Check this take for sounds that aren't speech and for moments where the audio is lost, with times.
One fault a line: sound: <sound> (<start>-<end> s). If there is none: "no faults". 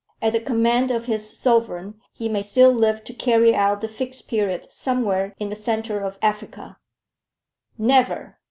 no faults